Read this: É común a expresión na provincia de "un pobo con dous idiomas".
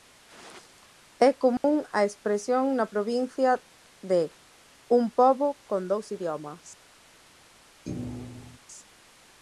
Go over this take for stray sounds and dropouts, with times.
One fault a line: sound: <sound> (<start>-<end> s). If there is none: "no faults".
sound: dropout (1.6-1.6 s)
sound: thud (7.9-8.6 s)